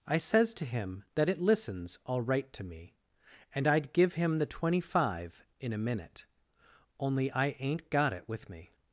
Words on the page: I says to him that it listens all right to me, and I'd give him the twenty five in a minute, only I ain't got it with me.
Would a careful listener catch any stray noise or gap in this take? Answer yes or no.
no